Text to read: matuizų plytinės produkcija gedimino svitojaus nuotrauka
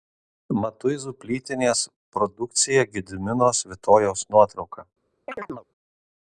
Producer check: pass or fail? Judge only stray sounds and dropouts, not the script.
fail